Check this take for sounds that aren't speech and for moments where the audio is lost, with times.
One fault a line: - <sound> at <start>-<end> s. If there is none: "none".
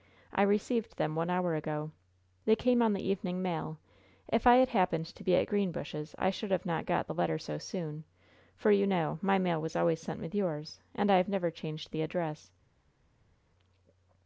none